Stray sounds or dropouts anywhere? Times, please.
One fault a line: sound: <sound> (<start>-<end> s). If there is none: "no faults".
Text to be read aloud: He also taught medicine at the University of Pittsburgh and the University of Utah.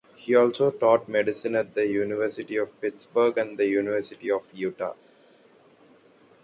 no faults